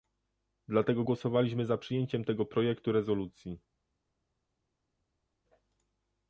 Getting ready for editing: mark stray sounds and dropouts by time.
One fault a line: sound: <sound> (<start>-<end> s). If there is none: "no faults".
no faults